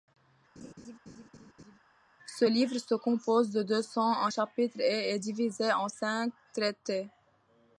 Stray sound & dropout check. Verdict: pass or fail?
fail